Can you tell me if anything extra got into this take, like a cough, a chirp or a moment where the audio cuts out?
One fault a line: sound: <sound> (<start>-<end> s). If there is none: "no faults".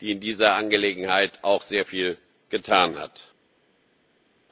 no faults